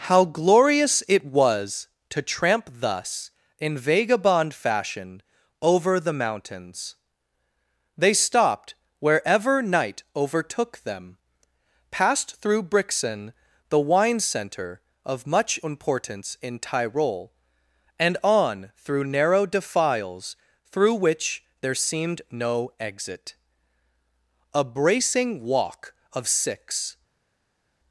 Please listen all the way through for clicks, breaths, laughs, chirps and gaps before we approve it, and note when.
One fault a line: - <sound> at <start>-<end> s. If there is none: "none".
none